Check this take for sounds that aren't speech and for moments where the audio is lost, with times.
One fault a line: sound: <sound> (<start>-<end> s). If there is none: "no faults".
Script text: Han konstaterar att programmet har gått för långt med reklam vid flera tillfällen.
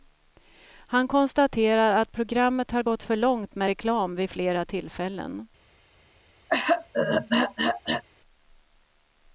sound: throat clearing (6.5-8.0 s)